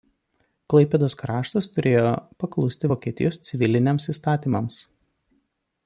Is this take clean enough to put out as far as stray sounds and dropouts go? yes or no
yes